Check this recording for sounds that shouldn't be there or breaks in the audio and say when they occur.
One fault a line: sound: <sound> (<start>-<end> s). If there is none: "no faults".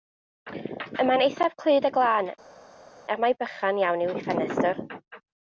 no faults